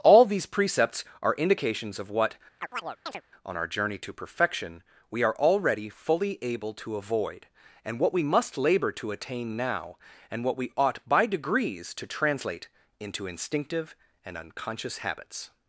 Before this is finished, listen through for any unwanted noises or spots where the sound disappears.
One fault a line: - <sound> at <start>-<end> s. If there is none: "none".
- chirp at 2.6-3.2 s